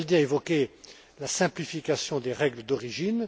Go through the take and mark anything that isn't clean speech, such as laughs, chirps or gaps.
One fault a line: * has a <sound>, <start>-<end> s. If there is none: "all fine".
all fine